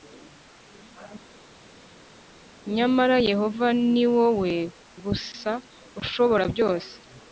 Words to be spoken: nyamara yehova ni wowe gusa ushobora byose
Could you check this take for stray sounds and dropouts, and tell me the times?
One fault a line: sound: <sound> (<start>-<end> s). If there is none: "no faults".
no faults